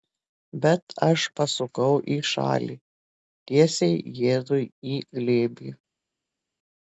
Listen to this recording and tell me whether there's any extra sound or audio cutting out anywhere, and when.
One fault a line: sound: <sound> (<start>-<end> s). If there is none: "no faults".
no faults